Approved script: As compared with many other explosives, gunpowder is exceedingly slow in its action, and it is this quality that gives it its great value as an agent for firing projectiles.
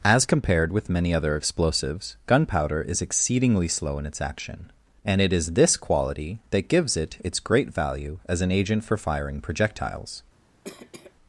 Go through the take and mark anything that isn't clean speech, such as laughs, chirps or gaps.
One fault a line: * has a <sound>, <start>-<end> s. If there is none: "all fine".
* has a cough, 10.6-11.1 s